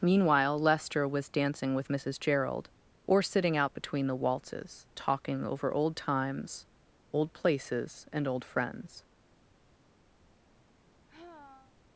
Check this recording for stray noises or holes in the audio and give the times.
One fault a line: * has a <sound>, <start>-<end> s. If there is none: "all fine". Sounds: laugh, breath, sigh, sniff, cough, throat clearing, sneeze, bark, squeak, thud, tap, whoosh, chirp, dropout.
* has a sigh, 10.2-11.8 s